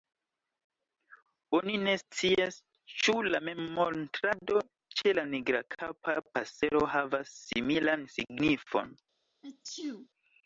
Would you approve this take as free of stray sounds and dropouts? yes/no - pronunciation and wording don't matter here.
no